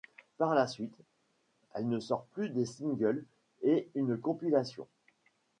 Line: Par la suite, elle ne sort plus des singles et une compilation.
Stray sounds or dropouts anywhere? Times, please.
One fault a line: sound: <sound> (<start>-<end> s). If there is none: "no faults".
no faults